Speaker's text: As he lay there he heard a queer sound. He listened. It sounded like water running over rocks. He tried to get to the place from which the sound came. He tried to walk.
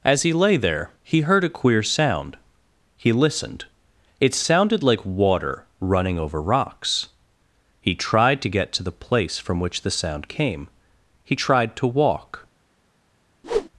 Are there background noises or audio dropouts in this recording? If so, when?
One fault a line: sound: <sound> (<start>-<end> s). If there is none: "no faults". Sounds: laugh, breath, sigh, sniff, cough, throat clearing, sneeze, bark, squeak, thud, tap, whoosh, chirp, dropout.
sound: whoosh (13.4-13.7 s)